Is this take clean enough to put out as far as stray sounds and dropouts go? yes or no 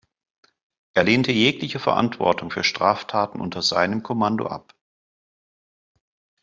yes